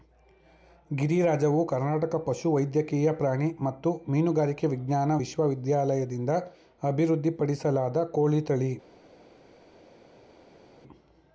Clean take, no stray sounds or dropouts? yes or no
yes